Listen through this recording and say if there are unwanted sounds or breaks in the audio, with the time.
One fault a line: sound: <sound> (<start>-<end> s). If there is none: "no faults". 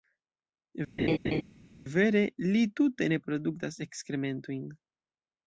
sound: laugh (1.0-1.4 s)